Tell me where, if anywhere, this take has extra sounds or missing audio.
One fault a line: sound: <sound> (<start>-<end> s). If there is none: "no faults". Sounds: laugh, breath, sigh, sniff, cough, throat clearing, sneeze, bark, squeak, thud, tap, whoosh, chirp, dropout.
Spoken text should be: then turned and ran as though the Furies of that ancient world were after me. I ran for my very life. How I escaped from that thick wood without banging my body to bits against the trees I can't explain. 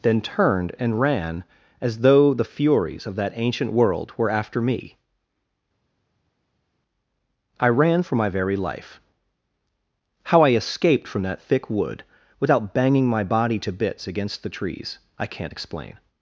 no faults